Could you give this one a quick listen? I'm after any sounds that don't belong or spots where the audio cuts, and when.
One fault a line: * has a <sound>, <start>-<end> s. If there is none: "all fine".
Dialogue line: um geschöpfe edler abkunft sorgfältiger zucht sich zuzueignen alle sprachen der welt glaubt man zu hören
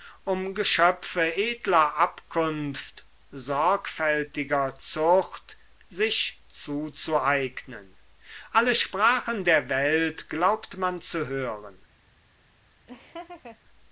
* has a laugh, 12.9-13.6 s